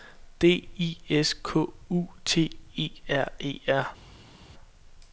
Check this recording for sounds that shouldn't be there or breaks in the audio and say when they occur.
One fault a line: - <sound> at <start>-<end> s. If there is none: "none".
none